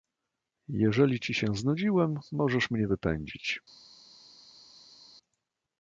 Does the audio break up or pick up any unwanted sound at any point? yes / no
no